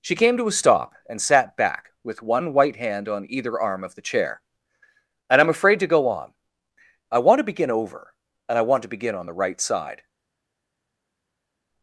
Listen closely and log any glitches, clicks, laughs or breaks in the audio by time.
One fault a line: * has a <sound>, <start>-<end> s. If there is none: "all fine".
all fine